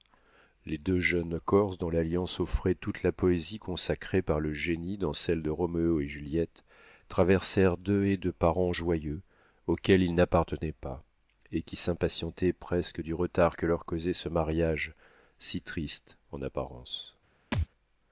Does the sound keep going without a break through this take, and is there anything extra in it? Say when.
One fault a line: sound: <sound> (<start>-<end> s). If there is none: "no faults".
sound: thud (17.5-17.7 s)